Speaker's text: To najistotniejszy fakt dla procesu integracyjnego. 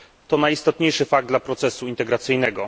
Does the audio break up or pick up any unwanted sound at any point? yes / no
no